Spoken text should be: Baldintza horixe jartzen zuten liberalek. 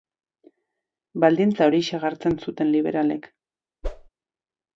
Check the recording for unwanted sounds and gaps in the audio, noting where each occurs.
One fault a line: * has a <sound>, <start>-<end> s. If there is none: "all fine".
* has a whoosh, 3.8-4.1 s